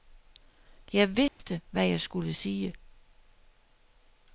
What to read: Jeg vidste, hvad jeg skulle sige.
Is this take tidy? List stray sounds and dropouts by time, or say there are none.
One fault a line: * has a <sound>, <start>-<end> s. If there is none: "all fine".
* has a dropout, 1.3-1.4 s